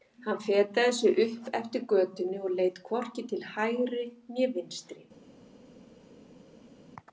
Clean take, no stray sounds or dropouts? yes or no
yes